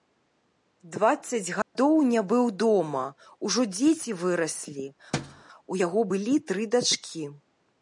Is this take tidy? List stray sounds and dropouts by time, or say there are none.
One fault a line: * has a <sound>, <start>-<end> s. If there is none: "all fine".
* has a dropout, 1.6-1.8 s
* has a thud, 5.1-5.4 s